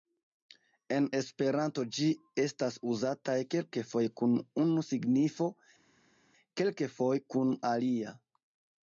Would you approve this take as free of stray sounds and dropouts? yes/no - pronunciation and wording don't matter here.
yes